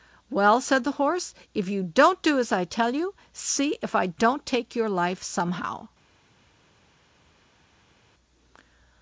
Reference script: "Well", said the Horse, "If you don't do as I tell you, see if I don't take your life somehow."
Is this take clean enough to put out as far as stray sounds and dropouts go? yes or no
yes